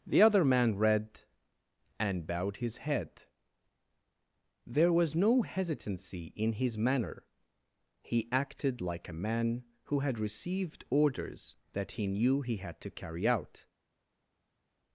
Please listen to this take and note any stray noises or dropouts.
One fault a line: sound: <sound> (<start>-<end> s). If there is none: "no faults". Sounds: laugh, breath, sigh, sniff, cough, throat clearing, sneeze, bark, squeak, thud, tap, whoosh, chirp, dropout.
no faults